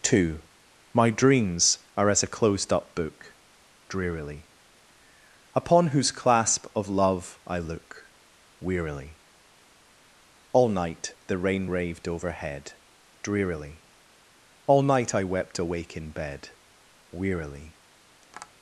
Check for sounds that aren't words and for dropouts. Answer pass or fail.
fail